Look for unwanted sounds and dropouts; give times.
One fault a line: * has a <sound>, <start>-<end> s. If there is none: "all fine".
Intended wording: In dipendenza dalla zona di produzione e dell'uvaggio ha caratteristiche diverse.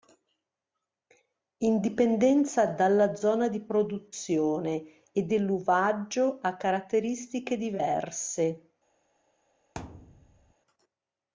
* has a thud, 9.8-10.5 s